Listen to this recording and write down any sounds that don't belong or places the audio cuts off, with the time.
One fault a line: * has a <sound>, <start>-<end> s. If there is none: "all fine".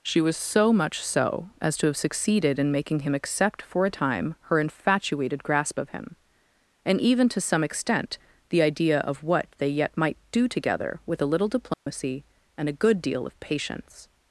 * has a dropout, 11.7-11.9 s